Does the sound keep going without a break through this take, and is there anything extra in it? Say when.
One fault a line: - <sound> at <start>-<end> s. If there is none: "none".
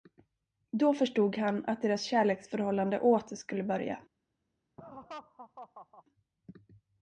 - laugh at 4.8-6.0 s